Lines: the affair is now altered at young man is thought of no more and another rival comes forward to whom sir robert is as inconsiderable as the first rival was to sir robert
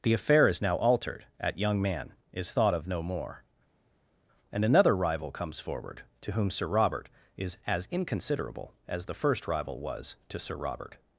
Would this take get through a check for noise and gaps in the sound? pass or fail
pass